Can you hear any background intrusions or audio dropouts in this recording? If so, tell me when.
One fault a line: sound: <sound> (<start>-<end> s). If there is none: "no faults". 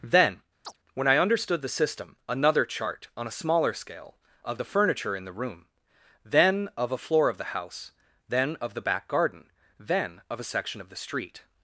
sound: chirp (0.6-0.8 s)